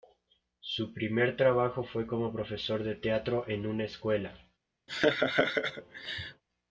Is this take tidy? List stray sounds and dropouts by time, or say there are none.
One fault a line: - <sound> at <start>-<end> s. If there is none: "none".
- laugh at 4.9-6.4 s